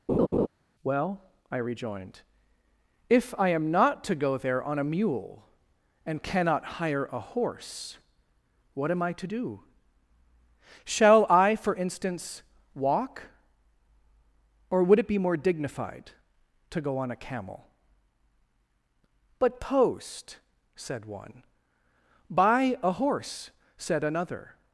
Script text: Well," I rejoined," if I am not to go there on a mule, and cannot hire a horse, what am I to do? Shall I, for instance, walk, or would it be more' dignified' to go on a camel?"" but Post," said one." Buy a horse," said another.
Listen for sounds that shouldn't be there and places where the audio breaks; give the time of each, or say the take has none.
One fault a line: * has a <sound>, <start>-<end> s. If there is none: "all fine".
* has a laugh, 0.1-0.5 s